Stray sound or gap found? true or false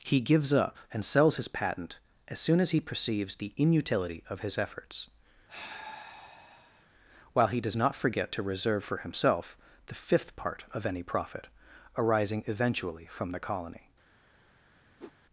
true